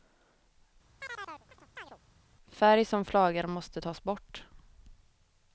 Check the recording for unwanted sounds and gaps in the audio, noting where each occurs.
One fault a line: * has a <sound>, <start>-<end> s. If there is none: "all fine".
* has a chirp, 1.0-2.0 s